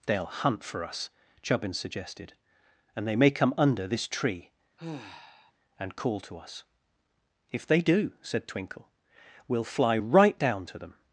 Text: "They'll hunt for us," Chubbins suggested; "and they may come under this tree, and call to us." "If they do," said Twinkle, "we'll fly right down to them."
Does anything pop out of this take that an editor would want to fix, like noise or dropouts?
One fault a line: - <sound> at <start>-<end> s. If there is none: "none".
- sigh at 4.8-5.5 s